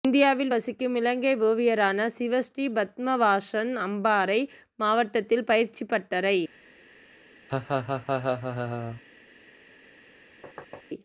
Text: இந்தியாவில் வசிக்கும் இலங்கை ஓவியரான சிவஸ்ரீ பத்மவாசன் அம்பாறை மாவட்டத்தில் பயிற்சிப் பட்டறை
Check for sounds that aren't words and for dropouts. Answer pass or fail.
fail